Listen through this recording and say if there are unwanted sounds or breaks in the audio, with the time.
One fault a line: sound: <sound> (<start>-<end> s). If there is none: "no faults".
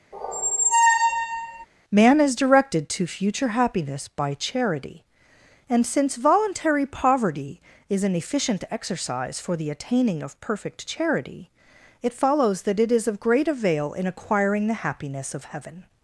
sound: squeak (0.1-1.7 s)